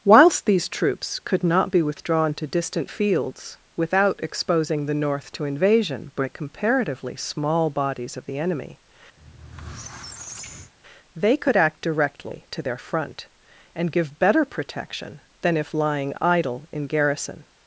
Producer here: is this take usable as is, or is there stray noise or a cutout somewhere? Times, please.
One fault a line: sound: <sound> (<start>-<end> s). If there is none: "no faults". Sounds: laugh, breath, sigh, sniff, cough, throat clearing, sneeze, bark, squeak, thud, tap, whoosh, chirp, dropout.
sound: squeak (9.2-10.7 s)